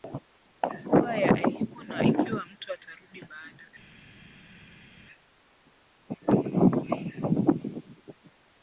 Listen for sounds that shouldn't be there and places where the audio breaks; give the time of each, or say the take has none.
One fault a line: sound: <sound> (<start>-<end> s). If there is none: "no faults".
no faults